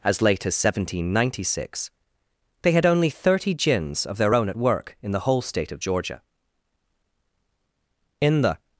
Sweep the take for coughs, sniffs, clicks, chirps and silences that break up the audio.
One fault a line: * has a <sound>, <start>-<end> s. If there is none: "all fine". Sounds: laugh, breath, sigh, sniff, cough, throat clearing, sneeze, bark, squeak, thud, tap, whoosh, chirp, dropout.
all fine